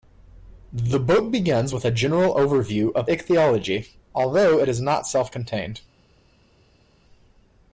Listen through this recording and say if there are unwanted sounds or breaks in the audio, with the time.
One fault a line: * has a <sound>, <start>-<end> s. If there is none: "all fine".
all fine